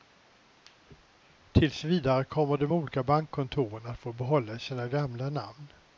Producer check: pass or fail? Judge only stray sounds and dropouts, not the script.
pass